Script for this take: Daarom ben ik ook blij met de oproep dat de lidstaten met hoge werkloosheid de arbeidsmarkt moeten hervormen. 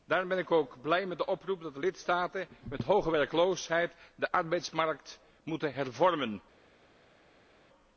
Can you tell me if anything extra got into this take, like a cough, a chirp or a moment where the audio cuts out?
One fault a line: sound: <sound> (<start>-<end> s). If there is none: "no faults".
no faults